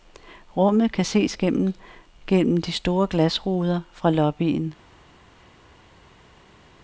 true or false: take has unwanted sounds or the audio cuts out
false